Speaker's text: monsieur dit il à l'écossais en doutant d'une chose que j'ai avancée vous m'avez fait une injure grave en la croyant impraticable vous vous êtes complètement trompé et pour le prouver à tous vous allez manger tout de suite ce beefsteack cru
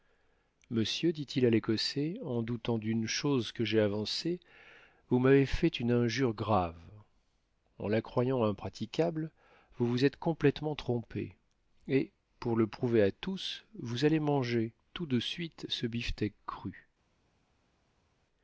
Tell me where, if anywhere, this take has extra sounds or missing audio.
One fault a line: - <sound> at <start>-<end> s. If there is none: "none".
none